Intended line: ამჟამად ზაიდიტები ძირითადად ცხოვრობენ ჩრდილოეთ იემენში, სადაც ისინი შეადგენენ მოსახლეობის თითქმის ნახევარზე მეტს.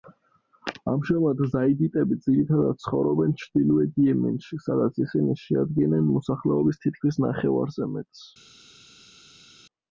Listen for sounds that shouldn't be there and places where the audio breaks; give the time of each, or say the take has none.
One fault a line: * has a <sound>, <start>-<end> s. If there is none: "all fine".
all fine